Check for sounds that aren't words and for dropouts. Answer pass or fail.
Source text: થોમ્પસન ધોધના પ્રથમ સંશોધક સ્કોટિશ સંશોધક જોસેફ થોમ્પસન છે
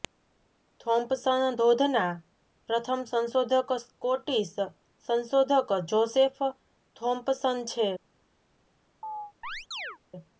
fail